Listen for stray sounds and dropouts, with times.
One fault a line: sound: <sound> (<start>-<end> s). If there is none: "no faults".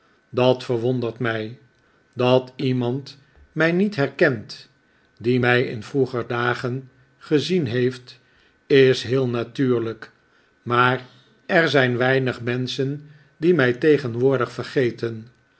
no faults